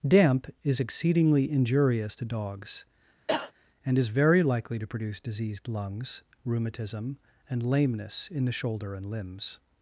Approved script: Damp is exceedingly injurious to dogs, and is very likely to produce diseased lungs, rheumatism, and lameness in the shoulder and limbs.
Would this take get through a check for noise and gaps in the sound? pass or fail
fail